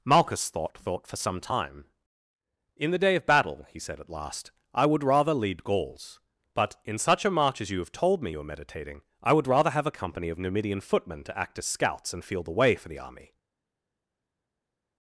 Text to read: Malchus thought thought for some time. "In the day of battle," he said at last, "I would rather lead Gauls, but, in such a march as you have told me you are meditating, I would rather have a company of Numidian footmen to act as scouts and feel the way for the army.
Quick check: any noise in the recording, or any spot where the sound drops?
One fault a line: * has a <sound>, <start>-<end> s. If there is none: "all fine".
all fine